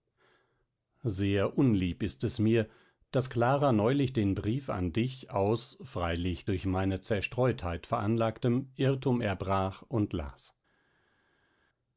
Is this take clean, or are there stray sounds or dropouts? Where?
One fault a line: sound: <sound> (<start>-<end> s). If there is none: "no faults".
no faults